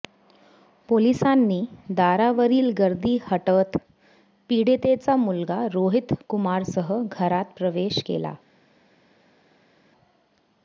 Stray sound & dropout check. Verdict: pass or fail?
pass